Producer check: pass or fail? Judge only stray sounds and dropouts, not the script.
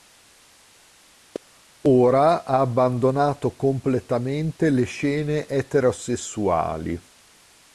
pass